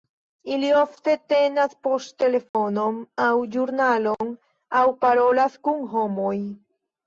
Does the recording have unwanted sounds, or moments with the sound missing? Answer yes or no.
yes